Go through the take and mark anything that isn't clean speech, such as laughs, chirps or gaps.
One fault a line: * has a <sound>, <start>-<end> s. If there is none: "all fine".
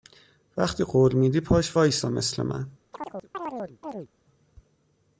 * has a chirp, 2.9-4.1 s